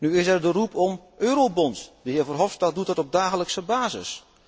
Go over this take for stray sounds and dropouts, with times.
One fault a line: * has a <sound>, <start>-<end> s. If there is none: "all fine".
all fine